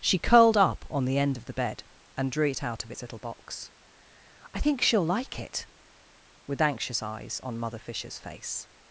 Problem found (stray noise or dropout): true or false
false